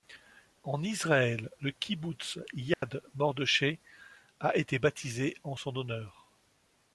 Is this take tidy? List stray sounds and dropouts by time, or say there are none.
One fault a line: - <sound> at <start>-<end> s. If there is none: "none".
- dropout at 2.7-2.8 s